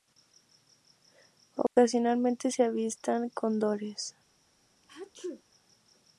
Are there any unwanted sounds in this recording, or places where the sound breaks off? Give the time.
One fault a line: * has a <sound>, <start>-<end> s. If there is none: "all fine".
* has a dropout, 1.7-1.8 s
* has a sneeze, 4.8-5.4 s